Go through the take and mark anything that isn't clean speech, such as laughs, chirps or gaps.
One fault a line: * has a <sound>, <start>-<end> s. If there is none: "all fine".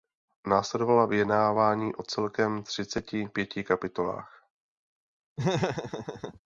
* has a laugh, 5.4-6.4 s